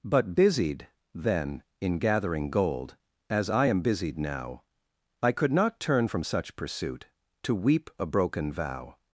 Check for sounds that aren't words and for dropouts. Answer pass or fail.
pass